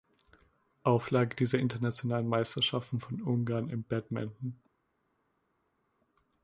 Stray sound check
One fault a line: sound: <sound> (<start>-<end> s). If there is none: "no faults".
no faults